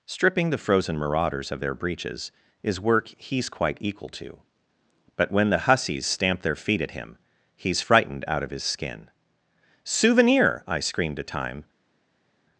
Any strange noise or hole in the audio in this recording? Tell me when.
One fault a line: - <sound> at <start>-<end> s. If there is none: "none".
none